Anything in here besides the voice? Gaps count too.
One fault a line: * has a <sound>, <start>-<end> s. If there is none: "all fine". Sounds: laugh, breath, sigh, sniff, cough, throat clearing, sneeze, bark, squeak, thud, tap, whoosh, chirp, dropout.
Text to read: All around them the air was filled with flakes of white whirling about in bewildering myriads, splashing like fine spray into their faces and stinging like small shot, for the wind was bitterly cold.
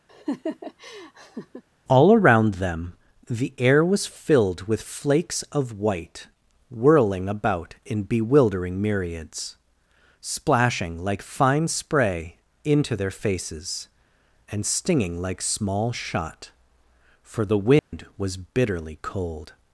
* has a laugh, 0.1-1.6 s
* has a dropout, 17.8-17.9 s